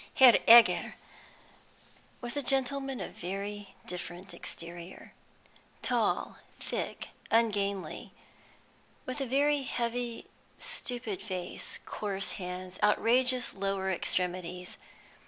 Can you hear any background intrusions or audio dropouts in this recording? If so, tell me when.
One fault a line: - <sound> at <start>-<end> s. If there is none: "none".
none